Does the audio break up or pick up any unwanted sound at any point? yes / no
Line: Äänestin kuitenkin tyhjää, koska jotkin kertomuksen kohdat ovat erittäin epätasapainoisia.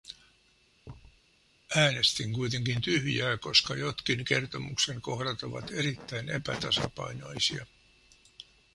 yes